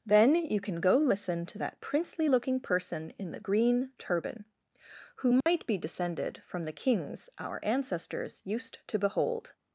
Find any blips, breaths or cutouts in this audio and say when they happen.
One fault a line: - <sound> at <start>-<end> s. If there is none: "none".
- dropout at 5.4-5.5 s